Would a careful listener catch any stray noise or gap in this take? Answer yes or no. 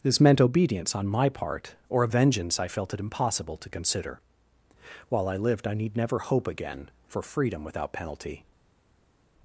no